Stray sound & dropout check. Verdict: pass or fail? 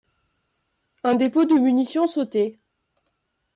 pass